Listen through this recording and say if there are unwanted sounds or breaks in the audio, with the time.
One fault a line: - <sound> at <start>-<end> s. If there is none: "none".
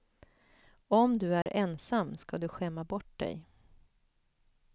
- dropout at 1.4-1.5 s